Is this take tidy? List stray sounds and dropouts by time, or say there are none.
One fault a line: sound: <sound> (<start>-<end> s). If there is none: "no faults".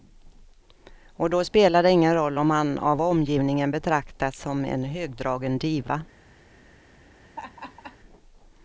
sound: laugh (7.2-8.0 s)